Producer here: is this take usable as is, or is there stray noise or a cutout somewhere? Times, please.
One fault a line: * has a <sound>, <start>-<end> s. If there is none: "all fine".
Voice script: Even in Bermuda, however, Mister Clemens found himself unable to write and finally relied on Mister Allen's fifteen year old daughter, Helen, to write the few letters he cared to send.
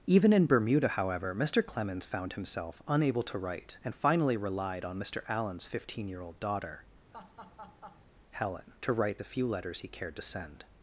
* has a laugh, 7.1-8.1 s